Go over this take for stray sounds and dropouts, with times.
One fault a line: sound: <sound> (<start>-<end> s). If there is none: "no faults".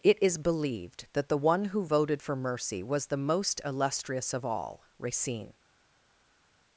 no faults